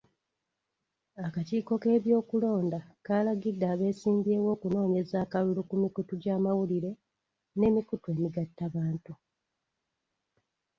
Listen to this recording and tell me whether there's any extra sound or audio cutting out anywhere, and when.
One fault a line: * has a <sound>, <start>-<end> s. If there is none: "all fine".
all fine